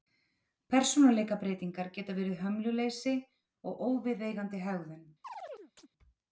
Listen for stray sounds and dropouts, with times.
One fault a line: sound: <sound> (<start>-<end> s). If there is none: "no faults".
sound: chirp (5.2-5.9 s)